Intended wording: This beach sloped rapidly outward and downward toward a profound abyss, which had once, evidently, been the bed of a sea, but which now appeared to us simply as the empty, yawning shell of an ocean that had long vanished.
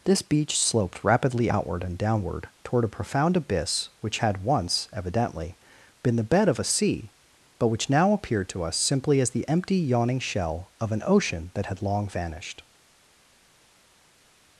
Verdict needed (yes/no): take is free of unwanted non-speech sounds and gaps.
yes